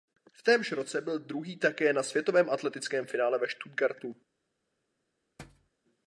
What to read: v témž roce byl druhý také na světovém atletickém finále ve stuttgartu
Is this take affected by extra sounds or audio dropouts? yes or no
yes